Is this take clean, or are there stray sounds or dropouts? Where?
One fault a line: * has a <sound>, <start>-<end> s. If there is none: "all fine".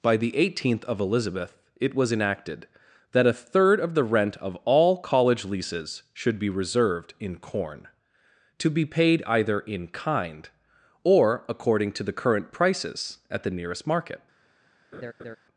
* has a laugh, 14.9-15.4 s